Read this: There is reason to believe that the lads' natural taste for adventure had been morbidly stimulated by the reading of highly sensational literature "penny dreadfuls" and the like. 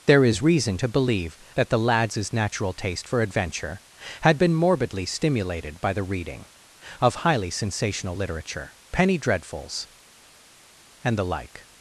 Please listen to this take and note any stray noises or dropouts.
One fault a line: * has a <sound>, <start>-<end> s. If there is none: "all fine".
all fine